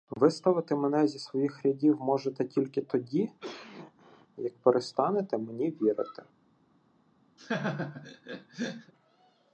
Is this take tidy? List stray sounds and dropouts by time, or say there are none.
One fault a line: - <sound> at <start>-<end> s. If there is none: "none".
- cough at 3.4-4.3 s
- laugh at 7.4-8.9 s